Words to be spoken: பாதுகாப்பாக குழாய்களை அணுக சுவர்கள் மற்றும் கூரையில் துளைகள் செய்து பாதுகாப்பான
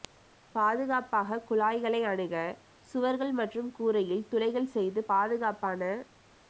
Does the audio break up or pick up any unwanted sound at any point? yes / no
no